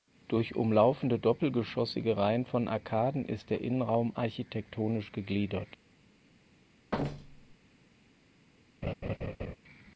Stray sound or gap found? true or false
true